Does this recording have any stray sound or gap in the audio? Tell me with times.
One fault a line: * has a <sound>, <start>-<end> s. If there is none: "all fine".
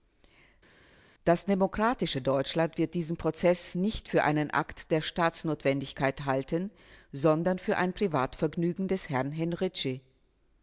all fine